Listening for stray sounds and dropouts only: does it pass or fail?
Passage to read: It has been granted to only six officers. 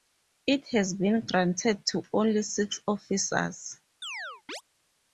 fail